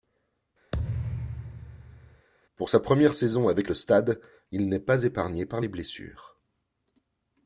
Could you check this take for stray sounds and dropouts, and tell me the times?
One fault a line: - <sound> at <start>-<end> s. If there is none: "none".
- thud at 0.7-2.3 s